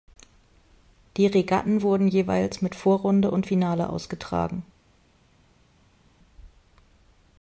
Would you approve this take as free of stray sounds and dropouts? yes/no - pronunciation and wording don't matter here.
yes